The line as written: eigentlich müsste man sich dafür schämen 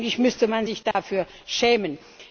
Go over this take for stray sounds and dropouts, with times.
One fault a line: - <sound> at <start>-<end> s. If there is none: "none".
- dropout at 0.9-0.9 s